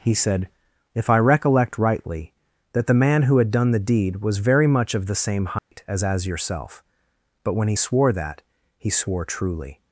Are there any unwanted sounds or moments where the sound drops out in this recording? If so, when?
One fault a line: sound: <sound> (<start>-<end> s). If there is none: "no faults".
sound: dropout (5.6-5.7 s)